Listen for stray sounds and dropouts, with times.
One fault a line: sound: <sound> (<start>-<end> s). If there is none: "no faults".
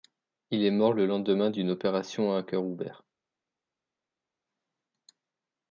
no faults